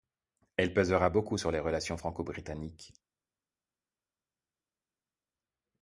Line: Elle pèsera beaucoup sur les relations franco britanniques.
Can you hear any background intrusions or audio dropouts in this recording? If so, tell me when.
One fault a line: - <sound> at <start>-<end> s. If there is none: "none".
none